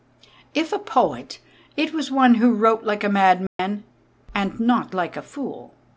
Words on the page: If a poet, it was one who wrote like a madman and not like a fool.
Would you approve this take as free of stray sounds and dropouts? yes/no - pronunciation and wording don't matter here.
no